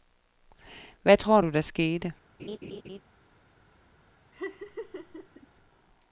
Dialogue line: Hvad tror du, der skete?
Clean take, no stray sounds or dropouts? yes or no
no